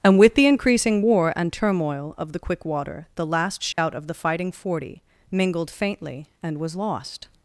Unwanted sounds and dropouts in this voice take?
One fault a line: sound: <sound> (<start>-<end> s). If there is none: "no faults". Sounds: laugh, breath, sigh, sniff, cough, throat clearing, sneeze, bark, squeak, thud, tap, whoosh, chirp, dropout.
sound: dropout (3.7-3.8 s)